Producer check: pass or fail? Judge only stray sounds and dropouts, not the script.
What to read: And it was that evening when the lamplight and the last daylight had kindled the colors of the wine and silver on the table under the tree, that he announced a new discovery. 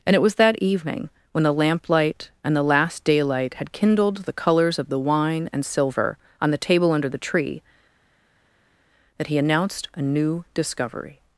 pass